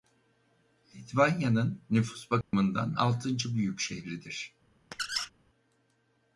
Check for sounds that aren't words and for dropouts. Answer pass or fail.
fail